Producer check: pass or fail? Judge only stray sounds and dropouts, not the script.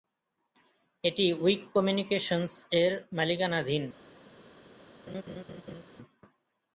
fail